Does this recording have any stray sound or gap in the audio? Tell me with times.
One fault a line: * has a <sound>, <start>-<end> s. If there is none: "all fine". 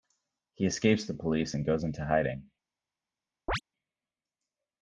* has a chirp, 3.5-3.6 s